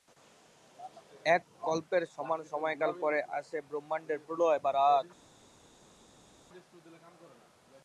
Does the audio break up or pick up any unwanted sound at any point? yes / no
no